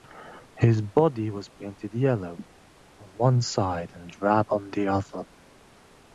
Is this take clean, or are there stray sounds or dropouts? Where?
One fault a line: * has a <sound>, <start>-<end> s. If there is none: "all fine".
all fine